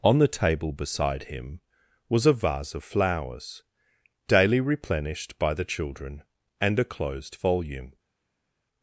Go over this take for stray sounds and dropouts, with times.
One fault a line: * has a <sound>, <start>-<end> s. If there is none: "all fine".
all fine